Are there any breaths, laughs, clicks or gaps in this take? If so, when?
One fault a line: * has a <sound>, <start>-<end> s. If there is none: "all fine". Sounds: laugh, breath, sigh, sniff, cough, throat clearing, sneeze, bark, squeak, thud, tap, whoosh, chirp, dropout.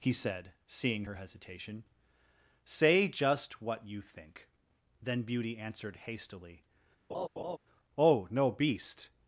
* has a laugh, 7.1-7.6 s